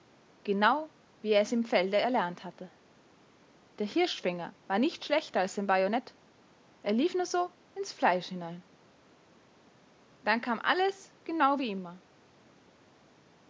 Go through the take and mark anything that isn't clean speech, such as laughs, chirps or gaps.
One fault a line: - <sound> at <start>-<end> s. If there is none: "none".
none